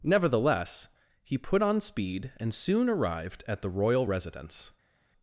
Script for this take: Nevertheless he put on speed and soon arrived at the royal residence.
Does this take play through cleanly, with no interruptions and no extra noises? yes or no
yes